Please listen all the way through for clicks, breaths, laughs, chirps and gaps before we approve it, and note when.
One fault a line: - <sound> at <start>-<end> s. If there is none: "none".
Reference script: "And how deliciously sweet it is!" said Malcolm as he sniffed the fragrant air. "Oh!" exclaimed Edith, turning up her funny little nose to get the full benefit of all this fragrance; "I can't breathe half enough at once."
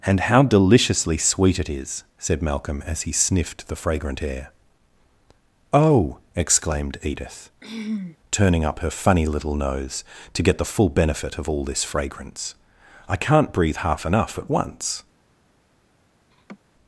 - throat clearing at 7.6-8.2 s
- laugh at 16.3-16.6 s